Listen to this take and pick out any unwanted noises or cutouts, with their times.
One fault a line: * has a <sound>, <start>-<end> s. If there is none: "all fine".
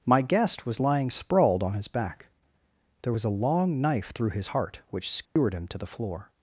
* has a dropout, 5.3-5.4 s